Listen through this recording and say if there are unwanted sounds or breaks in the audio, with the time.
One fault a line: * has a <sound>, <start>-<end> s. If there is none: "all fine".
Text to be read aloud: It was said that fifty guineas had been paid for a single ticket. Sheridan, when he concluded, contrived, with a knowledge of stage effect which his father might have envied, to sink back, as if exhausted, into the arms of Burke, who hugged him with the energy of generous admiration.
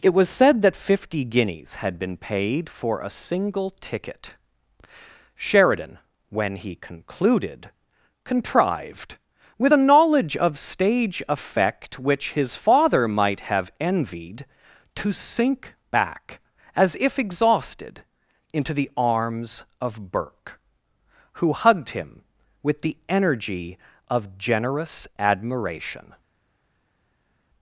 all fine